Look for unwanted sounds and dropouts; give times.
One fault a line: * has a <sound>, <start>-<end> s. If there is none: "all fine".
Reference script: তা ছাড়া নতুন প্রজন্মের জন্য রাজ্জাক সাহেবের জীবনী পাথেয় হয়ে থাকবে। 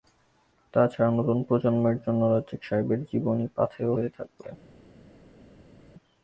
all fine